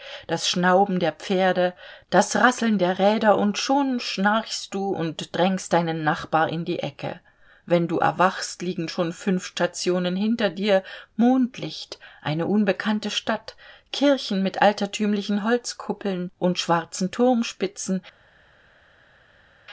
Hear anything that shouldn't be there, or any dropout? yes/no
no